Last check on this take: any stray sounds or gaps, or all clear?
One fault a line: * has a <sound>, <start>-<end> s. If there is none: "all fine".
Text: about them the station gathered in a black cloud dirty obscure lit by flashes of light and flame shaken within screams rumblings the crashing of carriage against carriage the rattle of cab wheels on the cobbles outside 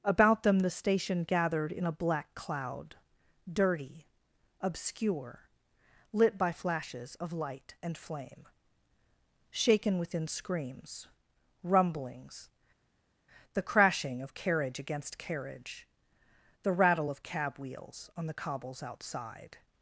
all fine